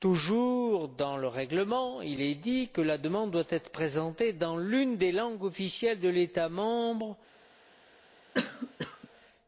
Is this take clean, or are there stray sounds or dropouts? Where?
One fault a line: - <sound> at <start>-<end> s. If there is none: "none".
- cough at 8.3-9.1 s